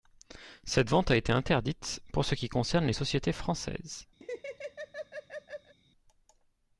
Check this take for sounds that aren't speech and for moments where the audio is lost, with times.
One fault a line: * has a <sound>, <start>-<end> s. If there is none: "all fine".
* has a laugh, 4.2-5.7 s